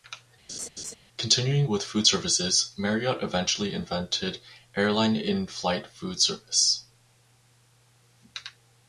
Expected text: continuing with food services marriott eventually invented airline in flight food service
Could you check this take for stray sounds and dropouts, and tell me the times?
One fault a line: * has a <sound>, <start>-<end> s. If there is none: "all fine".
* has a laugh, 0.5-1.0 s